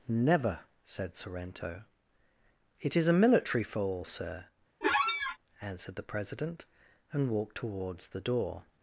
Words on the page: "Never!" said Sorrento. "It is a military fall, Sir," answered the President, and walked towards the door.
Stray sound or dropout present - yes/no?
yes